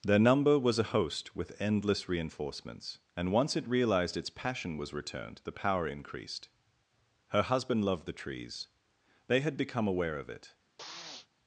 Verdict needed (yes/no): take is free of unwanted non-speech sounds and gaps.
no